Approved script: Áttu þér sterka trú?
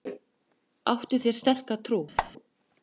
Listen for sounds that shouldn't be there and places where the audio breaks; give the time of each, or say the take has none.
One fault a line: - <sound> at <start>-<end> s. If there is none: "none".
- squeak at 2.2-2.3 s